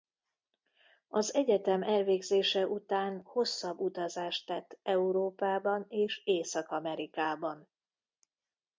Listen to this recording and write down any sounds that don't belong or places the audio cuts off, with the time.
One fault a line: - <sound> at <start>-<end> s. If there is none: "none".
none